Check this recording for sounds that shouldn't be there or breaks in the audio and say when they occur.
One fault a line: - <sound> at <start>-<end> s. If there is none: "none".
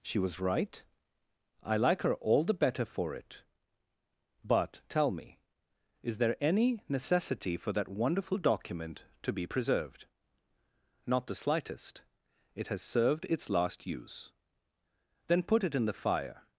none